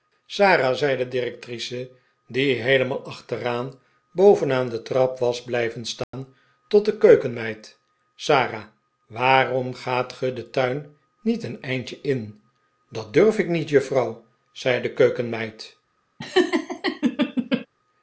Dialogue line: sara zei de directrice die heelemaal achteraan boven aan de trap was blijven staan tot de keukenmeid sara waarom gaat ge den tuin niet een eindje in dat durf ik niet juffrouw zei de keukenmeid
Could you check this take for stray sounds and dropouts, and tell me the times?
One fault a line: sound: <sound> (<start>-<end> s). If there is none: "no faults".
sound: dropout (6.0-6.1 s)
sound: laugh (16.2-17.7 s)